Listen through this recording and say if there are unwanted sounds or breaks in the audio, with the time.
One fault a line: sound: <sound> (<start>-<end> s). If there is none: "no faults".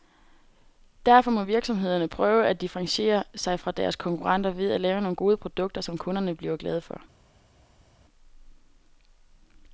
no faults